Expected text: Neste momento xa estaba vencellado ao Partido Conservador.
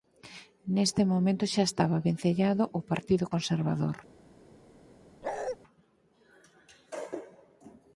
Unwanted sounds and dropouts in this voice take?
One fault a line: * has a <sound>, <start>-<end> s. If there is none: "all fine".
* has a bark, 5.2-5.6 s